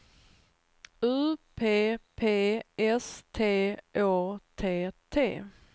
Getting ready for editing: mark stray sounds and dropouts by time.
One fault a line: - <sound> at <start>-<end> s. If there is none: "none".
none